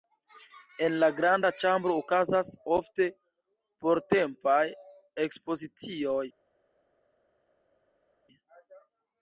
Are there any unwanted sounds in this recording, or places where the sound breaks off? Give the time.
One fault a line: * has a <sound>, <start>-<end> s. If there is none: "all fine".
all fine